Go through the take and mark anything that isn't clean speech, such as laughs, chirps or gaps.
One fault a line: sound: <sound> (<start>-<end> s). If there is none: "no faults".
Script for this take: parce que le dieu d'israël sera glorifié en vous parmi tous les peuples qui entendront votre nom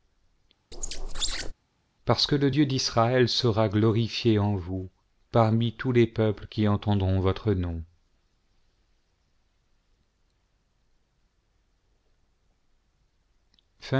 sound: squeak (0.7-1.5 s)